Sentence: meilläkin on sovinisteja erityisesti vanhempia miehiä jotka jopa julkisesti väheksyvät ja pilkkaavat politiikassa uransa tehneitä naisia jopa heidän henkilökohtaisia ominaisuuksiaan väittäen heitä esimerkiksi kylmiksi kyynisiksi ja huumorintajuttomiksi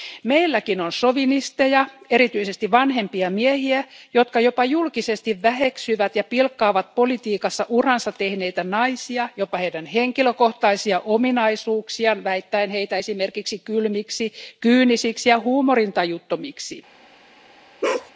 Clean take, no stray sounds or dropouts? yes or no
no